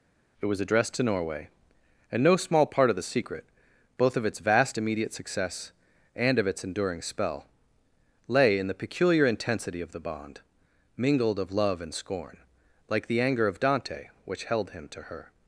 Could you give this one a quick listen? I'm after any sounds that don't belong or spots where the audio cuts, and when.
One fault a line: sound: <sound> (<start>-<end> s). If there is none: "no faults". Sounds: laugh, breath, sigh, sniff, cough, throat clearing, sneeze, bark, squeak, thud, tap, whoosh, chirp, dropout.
no faults